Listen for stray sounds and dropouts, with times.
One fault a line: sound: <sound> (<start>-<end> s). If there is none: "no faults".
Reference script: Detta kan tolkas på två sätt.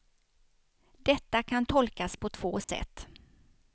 sound: dropout (2.6-2.7 s)